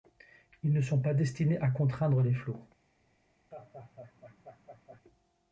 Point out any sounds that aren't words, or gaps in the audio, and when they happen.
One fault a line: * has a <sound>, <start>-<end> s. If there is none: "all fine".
* has a laugh, 3.5-5.0 s